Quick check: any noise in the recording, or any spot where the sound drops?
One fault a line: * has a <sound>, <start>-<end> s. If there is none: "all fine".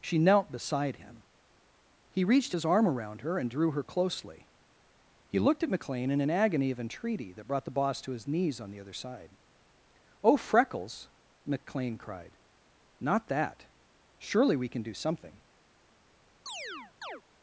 * has a chirp, 16.5-17.2 s